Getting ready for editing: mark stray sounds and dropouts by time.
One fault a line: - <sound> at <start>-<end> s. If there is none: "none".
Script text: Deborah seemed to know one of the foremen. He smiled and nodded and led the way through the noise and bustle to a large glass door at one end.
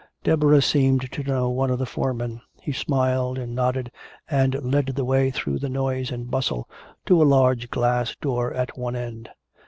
none